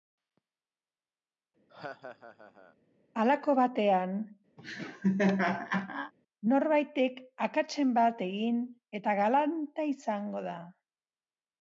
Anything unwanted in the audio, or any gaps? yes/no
yes